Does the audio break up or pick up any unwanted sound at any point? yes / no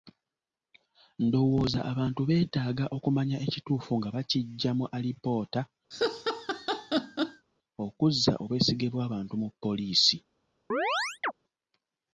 yes